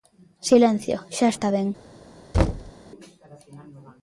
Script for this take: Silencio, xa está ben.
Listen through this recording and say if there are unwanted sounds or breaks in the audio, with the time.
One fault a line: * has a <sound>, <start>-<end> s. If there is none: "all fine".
* has a thud, 2.3-2.7 s